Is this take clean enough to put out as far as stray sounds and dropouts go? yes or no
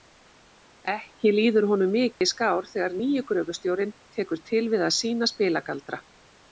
no